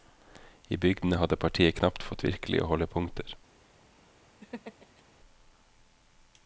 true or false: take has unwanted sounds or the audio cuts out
true